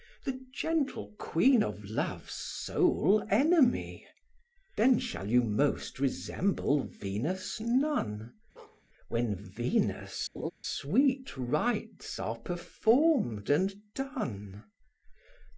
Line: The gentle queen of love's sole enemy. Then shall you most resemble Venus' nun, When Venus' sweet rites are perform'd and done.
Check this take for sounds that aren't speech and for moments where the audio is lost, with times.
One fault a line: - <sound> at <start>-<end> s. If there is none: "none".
- bark at 8.6-8.8 s
- laugh at 10.3-10.5 s